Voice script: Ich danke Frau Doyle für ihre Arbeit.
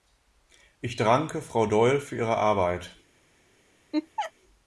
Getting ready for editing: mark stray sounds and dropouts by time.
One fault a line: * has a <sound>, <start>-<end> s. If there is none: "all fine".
* has a laugh, 3.9-4.3 s